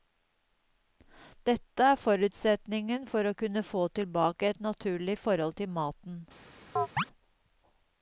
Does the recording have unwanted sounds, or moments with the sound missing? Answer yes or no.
yes